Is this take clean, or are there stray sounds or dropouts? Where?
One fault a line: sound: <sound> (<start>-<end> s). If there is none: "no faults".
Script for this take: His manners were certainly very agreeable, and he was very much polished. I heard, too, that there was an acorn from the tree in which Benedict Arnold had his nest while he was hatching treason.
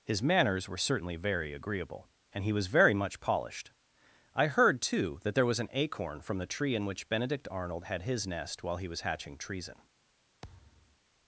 sound: thud (10.4-11.0 s)